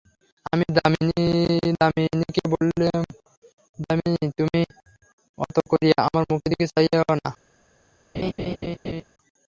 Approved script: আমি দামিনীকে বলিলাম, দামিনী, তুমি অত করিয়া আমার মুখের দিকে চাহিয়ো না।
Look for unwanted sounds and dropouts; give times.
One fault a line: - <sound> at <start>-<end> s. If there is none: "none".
- laugh at 8.1-9.0 s